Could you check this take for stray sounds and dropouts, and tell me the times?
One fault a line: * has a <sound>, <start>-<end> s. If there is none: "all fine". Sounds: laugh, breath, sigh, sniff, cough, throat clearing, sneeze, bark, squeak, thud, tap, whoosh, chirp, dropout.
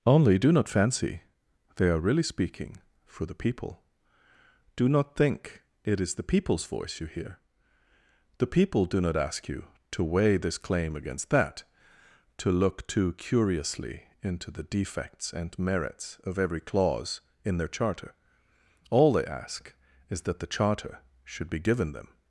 all fine